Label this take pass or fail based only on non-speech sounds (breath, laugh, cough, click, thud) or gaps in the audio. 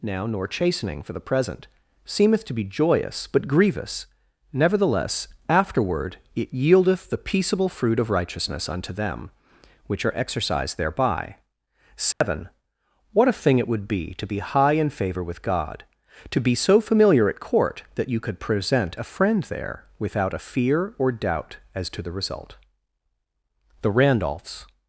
fail